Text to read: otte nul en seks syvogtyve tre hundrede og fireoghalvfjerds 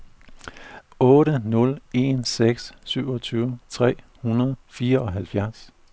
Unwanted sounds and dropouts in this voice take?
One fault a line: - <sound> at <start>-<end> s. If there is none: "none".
none